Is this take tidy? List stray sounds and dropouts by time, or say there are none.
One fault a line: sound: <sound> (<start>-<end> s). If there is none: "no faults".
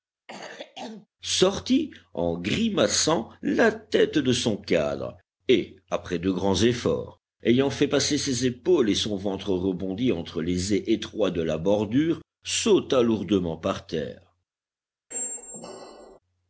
sound: cough (0.3-1.1 s)
sound: squeak (15.1-16.2 s)